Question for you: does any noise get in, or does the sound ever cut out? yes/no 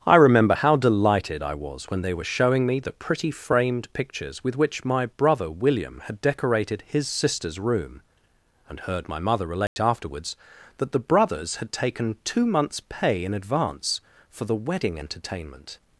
yes